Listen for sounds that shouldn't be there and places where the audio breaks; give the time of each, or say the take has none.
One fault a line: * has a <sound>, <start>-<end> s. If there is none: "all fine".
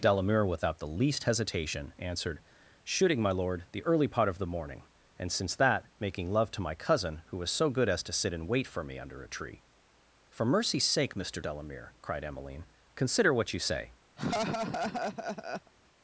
* has a laugh, 14.2-15.7 s